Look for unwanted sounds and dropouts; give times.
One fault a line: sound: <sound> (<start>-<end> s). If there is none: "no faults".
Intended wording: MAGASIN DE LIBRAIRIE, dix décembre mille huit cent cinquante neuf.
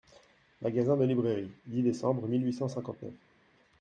no faults